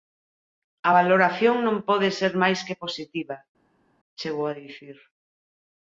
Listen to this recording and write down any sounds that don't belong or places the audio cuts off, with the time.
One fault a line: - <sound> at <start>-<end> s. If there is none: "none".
none